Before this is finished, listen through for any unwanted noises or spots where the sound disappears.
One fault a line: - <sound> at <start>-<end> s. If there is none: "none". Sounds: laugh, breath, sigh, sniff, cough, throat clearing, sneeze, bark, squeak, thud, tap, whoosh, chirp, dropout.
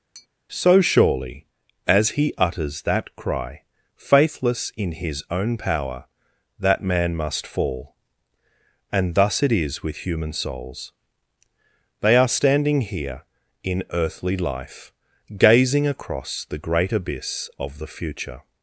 - tap at 0.1-0.3 s